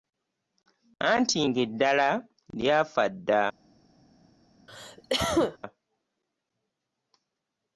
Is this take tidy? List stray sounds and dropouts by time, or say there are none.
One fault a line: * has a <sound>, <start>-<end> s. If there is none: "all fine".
* has a cough, 4.7-5.6 s